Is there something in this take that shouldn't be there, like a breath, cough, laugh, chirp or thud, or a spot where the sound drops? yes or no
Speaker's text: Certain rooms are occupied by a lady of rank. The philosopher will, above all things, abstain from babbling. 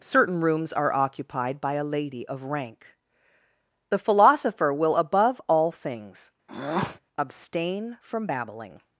yes